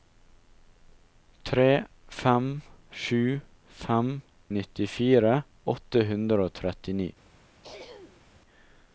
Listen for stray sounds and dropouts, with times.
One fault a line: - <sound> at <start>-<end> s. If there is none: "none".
- throat clearing at 7.6-8.2 s